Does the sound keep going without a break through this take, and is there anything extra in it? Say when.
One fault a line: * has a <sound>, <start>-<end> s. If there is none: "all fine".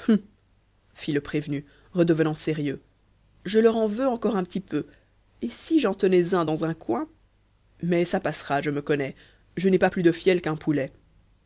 all fine